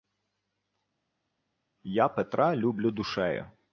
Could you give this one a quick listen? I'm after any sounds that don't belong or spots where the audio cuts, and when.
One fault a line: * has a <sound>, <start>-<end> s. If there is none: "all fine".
all fine